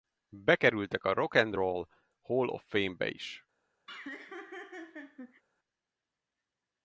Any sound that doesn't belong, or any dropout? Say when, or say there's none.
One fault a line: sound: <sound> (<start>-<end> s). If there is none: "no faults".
sound: laugh (3.9-5.4 s)